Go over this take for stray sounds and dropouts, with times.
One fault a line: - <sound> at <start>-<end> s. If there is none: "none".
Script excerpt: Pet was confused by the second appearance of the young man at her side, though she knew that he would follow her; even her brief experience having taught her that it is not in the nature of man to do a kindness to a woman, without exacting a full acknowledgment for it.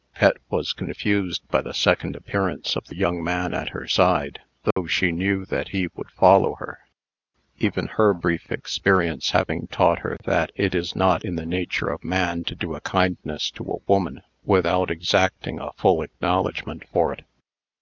- dropout at 4.7-4.8 s